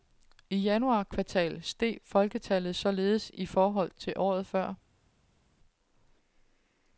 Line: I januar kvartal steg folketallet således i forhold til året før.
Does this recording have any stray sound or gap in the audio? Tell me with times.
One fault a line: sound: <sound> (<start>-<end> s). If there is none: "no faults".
no faults